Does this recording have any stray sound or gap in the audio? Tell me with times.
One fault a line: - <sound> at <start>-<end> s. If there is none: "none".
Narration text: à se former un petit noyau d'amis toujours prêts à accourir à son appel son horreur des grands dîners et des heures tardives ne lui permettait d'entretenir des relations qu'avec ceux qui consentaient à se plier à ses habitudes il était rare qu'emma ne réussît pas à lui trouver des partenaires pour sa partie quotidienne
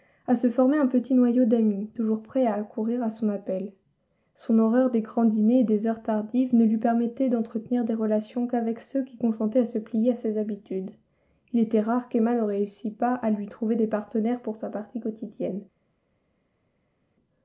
none